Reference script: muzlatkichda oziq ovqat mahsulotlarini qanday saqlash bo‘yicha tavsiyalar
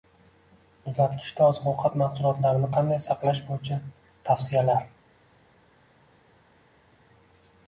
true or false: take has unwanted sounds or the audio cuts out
false